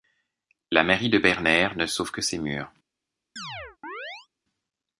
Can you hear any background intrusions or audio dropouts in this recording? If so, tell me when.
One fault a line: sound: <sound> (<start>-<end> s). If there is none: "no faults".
sound: chirp (3.4-4.3 s)